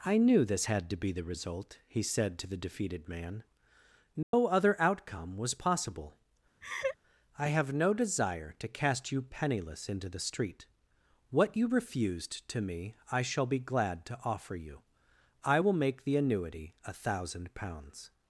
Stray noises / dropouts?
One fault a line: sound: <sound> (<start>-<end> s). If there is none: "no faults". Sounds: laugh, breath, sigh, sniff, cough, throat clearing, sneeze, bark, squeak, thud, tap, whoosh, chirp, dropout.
sound: dropout (4.2-4.3 s)
sound: laugh (6.6-7.0 s)